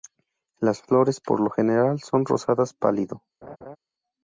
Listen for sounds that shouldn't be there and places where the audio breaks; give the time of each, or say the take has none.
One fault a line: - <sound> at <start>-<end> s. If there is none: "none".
- laugh at 3.4-3.8 s